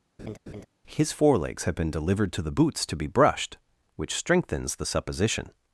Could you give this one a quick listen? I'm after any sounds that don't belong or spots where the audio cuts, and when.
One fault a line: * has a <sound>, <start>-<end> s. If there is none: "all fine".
* has a laugh, 0.2-0.7 s